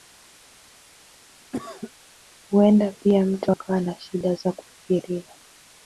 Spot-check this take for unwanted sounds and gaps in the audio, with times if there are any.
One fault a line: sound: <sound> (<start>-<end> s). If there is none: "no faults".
sound: cough (1.5-1.9 s)